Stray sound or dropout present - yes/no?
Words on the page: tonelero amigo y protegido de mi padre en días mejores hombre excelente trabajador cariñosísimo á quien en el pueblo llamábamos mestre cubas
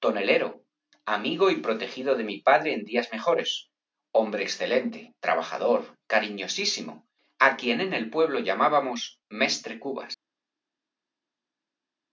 no